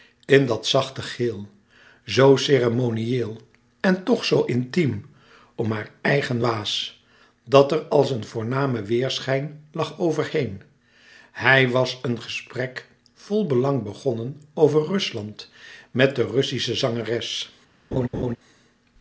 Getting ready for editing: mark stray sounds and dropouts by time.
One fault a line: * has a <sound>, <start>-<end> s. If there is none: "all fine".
* has a laugh, 17.9-18.4 s